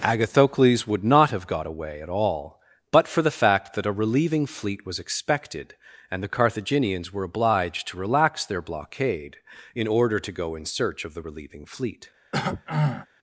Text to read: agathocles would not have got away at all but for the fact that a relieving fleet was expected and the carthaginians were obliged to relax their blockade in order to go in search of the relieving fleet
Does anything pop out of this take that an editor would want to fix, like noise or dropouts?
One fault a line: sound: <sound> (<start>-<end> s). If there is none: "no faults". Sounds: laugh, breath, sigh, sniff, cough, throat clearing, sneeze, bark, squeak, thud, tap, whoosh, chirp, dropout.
sound: throat clearing (12.3-13.1 s)